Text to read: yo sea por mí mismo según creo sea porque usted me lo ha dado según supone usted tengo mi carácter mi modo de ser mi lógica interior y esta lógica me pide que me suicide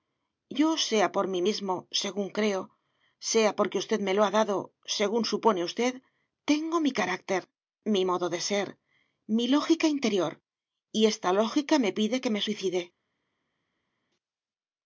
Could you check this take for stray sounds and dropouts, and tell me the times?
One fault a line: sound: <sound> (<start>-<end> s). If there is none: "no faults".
no faults